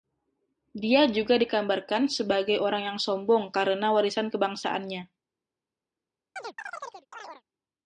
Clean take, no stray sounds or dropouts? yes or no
no